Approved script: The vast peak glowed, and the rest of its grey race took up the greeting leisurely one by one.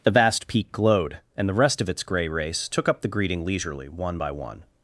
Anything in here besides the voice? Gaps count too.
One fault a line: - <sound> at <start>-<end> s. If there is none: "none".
none